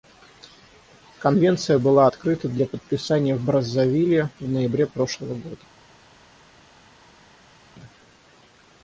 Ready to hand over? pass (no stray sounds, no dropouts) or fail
pass